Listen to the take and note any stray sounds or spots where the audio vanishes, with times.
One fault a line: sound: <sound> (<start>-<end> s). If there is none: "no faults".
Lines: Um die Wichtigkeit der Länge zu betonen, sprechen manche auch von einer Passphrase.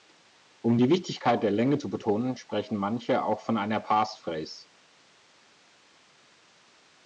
no faults